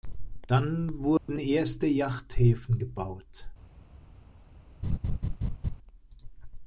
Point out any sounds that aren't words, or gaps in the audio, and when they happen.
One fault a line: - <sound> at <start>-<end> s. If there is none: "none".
- dropout at 1.2-1.3 s
- laugh at 4.8-5.8 s